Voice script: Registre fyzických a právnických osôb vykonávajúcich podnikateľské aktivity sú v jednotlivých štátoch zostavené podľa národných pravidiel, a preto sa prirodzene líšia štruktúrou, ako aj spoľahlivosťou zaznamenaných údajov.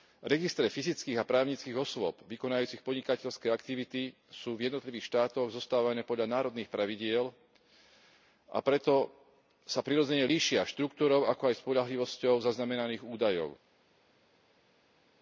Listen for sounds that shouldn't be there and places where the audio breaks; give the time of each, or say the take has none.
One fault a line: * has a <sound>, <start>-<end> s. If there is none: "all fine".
all fine